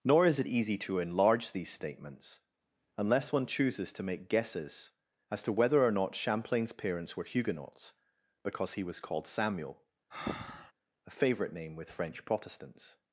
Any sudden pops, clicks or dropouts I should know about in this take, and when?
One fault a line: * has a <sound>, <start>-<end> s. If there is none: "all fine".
* has a breath, 10.1-10.7 s